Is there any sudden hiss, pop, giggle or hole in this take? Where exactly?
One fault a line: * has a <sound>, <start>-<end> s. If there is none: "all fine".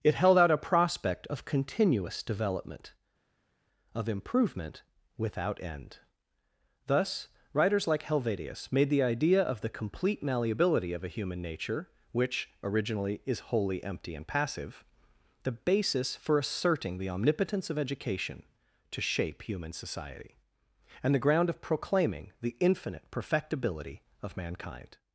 all fine